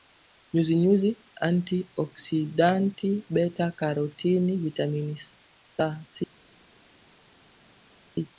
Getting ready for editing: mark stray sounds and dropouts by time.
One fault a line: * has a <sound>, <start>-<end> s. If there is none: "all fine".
all fine